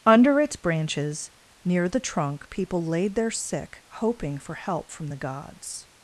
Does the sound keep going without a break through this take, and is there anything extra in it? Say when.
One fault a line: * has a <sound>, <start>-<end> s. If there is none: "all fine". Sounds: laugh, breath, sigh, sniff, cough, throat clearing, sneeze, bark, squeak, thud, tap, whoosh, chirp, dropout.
all fine